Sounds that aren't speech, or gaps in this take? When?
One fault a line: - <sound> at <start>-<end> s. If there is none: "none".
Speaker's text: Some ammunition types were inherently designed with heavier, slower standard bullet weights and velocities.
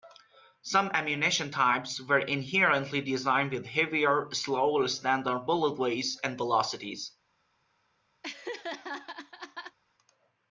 - laugh at 8.2-9.8 s